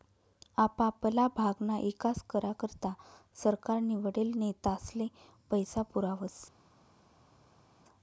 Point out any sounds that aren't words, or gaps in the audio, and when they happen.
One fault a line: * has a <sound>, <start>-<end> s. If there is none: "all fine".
all fine